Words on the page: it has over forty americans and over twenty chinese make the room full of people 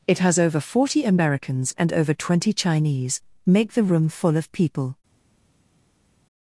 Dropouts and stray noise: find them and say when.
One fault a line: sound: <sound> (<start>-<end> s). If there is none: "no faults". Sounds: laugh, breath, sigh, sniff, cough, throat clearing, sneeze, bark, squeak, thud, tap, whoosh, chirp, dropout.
no faults